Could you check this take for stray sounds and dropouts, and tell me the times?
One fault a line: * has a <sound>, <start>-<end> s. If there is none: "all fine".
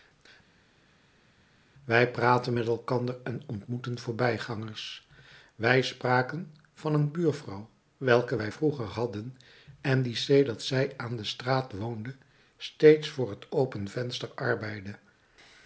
all fine